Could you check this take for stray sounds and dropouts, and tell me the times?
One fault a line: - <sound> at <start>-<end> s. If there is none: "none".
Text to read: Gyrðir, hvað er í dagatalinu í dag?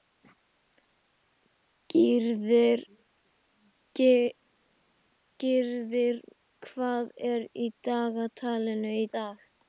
none